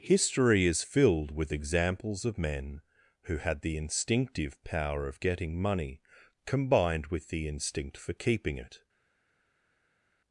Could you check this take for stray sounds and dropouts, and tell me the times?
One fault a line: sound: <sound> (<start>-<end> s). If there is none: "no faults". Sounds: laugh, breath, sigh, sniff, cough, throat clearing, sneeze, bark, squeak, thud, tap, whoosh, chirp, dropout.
no faults